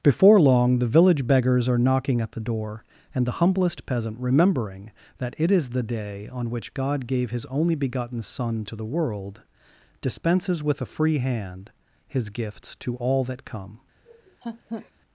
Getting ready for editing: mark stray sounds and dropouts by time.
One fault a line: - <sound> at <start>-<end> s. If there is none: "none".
- laugh at 14.0-14.9 s